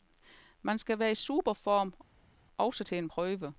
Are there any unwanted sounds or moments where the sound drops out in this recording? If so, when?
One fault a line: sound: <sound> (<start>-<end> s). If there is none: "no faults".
no faults